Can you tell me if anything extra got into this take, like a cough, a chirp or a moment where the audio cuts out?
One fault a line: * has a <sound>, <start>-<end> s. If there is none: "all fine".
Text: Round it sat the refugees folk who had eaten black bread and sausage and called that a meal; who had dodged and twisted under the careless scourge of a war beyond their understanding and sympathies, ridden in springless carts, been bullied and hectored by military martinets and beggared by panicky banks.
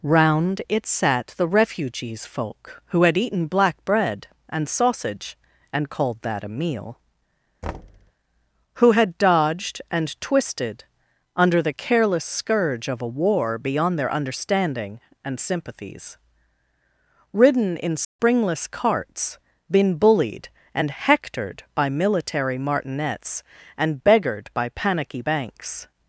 * has a thud, 7.6-8.1 s
* has a dropout, 18.0-18.2 s